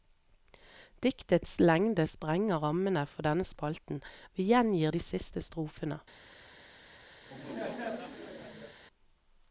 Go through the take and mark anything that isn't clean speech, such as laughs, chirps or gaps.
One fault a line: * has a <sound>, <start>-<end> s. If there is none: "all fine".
* has a laugh, 7.2-8.8 s